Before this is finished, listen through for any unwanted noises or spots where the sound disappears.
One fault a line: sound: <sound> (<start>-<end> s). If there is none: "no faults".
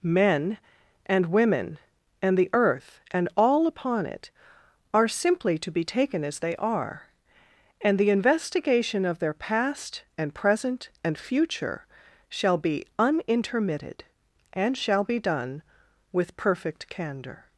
no faults